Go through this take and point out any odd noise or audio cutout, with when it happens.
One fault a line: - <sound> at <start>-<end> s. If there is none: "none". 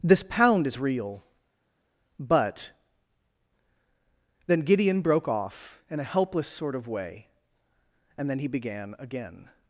none